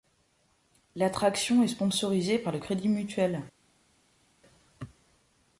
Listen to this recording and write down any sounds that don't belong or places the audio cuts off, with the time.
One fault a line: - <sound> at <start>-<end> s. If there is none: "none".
none